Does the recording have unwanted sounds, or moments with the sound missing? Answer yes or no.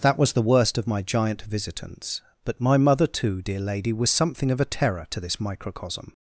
no